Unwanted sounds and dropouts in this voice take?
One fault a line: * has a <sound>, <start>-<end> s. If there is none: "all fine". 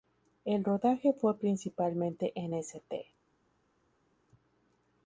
all fine